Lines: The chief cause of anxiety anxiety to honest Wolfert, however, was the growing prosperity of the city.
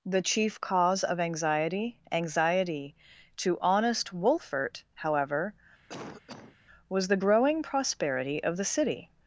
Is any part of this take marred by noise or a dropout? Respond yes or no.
yes